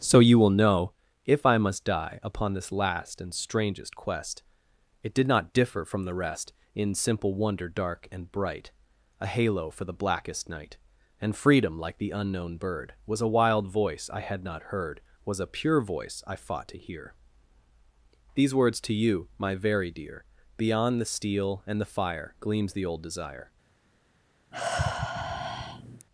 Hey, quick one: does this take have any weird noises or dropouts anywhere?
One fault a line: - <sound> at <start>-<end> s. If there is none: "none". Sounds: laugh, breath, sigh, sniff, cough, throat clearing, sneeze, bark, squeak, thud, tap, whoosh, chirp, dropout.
- sigh at 24.5-26.1 s